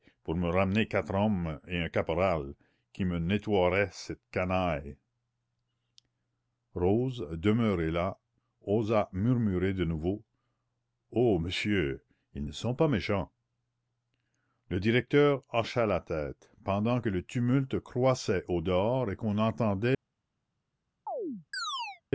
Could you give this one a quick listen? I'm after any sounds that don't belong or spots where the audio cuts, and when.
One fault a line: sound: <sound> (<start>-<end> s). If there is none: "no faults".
sound: chirp (21.1-22.0 s)